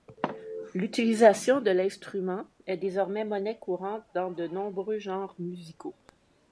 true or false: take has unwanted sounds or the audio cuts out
false